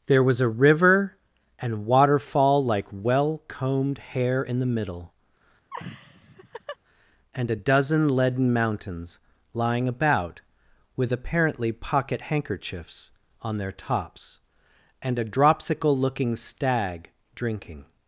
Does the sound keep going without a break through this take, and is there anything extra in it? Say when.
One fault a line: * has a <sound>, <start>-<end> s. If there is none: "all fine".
* has a laugh, 5.7-6.8 s